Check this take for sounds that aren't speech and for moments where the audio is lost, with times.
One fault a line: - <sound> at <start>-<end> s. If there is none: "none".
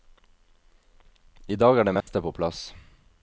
- dropout at 2.0-2.1 s